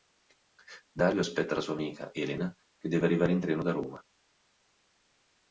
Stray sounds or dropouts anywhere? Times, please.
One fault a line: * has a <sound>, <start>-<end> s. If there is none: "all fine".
all fine